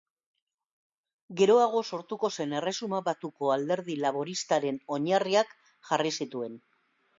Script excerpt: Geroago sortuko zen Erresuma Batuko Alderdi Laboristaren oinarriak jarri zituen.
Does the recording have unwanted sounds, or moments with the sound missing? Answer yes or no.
no